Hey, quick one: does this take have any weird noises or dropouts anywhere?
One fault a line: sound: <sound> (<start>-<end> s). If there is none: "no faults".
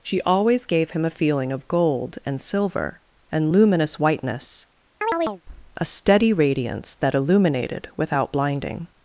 sound: chirp (5.0-5.4 s)